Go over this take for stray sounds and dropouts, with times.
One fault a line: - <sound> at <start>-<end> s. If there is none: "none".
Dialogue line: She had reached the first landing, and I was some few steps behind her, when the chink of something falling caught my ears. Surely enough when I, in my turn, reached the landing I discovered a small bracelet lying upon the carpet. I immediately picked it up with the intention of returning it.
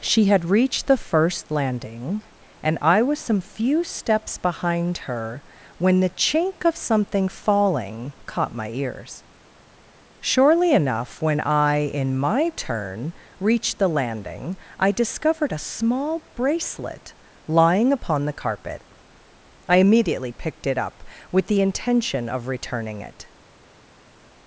none